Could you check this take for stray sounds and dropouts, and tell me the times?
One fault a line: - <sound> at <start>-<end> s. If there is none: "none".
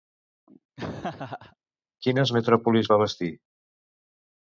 - laugh at 0.8-1.6 s